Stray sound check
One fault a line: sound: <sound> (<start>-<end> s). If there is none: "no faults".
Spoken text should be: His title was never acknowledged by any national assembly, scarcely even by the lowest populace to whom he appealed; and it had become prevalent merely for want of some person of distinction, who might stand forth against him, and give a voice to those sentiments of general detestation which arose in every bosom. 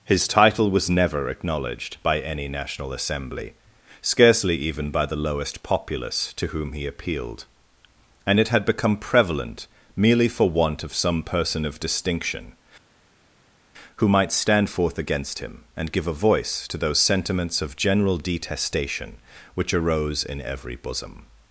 no faults